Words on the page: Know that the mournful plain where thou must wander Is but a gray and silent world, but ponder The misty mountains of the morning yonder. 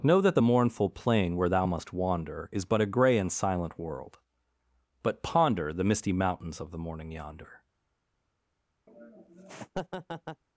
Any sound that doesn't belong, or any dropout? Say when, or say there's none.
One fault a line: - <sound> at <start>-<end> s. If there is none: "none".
- laugh at 8.9-10.4 s